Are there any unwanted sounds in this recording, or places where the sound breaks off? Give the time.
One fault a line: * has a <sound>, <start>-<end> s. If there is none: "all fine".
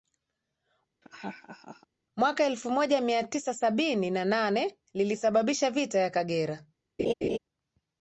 * has a laugh, 1.0-1.9 s
* has a laugh, 7.0-7.4 s